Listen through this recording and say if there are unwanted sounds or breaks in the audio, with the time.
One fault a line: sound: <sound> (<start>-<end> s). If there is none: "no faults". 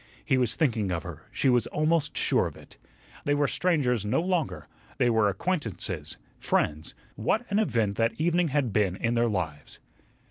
no faults